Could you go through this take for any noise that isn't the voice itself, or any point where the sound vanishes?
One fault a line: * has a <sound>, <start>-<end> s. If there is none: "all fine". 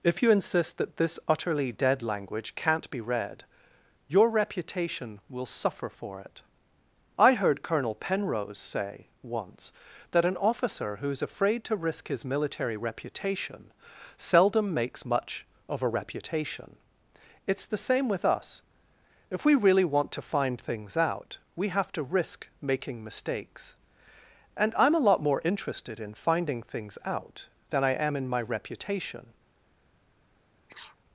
* has a sneeze, 30.7-31.0 s